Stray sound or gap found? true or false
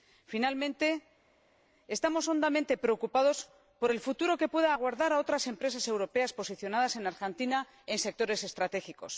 false